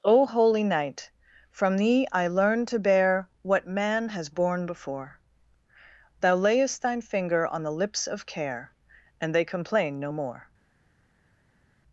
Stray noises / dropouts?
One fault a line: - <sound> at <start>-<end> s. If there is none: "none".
none